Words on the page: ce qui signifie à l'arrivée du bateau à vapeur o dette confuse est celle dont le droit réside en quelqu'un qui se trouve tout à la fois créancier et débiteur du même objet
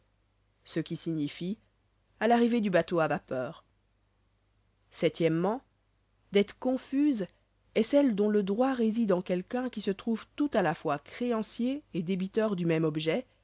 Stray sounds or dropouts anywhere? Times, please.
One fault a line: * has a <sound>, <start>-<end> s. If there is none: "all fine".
all fine